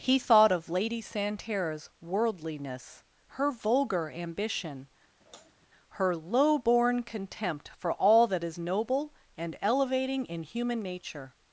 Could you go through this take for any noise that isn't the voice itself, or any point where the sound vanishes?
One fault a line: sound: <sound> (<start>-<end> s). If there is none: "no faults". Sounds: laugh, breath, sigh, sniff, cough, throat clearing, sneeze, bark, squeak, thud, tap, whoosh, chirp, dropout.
sound: sigh (5.2-5.7 s)